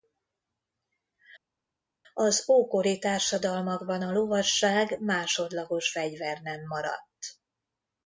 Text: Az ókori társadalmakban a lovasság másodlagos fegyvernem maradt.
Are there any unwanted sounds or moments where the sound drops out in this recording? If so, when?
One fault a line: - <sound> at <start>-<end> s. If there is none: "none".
none